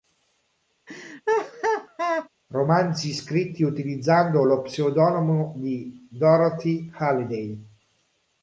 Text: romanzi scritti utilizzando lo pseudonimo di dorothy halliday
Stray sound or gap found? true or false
true